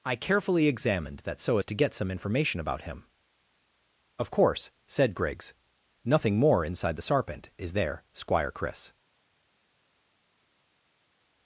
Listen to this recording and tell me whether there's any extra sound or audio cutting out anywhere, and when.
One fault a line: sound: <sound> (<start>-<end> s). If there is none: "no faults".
no faults